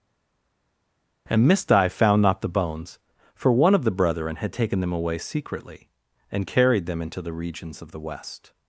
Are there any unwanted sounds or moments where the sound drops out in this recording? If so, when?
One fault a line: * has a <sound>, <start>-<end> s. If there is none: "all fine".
all fine